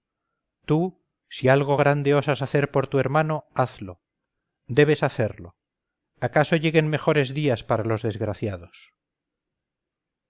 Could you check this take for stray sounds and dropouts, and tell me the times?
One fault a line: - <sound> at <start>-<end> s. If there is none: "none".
none